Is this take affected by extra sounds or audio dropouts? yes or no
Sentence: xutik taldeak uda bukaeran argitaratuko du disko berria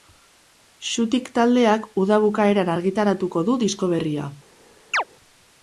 yes